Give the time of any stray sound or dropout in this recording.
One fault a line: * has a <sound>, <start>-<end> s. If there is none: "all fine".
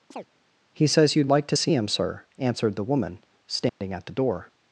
* has a chirp, 0.1-0.3 s
* has a dropout, 3.7-3.8 s